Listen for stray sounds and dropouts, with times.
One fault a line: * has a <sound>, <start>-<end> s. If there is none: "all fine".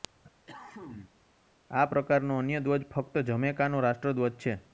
* has a cough, 0.5-1.3 s